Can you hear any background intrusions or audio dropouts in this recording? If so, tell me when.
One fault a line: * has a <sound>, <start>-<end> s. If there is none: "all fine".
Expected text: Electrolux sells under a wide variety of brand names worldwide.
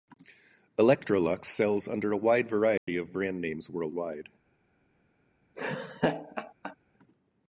* has a dropout, 2.8-2.9 s
* has a laugh, 5.5-6.8 s